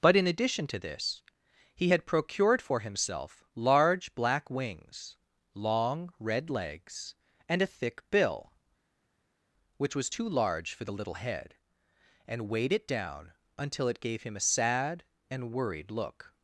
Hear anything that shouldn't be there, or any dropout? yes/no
no